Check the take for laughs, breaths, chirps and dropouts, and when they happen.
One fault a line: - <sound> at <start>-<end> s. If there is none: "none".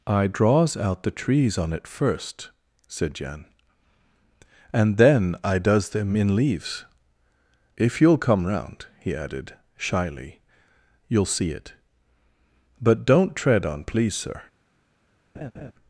- laugh at 15.3-15.7 s